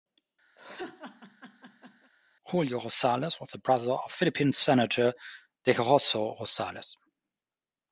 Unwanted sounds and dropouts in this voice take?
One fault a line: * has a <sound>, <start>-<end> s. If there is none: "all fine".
* has a laugh, 0.6-2.1 s